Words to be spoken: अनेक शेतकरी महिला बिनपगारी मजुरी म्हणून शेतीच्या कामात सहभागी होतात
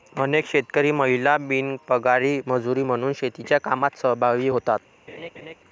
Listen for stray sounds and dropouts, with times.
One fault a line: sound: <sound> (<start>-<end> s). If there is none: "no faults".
sound: laugh (5.1-5.5 s)